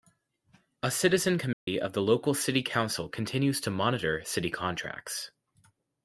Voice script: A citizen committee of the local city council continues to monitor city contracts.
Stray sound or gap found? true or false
true